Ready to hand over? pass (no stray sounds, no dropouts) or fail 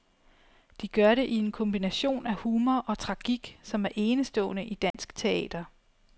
fail